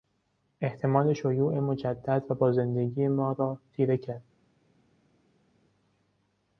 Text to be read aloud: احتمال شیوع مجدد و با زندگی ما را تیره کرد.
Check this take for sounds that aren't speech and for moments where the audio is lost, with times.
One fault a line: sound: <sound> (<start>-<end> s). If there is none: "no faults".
no faults